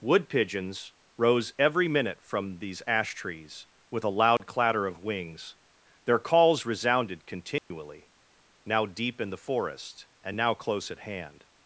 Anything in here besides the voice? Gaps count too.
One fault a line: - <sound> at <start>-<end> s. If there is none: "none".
- dropout at 4.4-4.4 s
- dropout at 7.6-7.7 s